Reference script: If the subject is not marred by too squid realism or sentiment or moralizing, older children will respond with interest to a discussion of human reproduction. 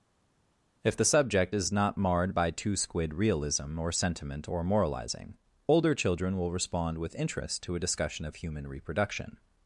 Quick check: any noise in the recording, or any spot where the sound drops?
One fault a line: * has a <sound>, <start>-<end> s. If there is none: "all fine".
all fine